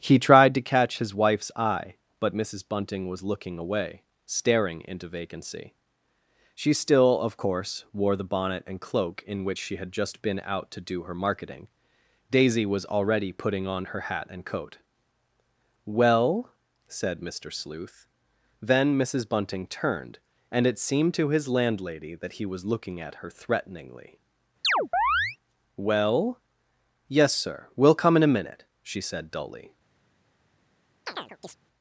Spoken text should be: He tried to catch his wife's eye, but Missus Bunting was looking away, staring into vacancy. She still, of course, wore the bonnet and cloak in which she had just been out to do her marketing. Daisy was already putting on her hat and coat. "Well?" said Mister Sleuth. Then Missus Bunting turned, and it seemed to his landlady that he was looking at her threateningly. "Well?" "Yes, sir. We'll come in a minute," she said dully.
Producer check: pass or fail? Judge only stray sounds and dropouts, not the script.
fail